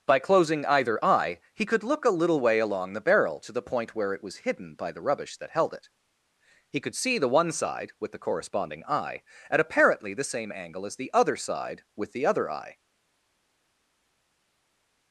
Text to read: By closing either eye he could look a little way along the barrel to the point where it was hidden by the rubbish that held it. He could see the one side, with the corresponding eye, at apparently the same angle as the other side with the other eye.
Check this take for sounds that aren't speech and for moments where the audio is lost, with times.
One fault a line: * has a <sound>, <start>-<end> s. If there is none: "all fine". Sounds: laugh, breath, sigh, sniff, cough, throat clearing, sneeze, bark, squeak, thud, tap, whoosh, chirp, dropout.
all fine